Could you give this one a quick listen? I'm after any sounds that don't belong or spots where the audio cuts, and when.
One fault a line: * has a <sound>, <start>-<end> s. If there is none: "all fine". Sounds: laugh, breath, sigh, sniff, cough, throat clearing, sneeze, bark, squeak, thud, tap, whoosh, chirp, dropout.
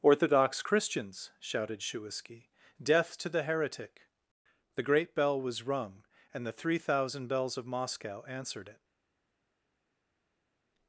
all fine